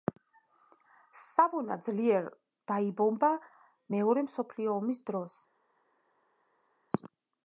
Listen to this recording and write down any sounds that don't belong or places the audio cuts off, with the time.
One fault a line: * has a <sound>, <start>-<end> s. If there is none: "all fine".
all fine